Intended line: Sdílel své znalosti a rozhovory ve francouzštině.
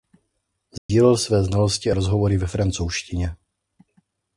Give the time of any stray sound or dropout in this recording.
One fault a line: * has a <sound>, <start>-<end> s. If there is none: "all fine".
* has a dropout, 0.8-0.9 s